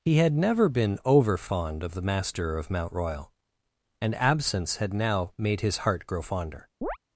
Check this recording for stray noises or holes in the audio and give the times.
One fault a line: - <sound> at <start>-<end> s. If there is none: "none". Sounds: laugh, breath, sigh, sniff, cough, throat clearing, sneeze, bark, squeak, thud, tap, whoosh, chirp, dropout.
- chirp at 6.8-7.0 s